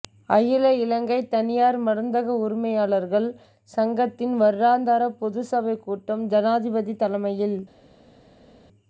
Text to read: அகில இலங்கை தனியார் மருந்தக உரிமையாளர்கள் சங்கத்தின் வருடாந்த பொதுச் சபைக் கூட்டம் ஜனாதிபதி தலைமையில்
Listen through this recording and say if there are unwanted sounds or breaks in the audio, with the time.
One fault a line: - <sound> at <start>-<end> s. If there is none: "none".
none